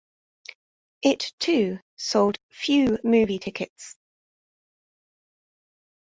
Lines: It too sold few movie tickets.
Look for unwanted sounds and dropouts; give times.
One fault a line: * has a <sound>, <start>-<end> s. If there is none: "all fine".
all fine